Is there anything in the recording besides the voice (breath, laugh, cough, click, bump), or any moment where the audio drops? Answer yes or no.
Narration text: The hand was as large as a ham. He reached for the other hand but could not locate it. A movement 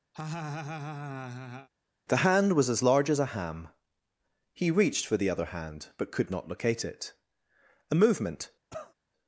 yes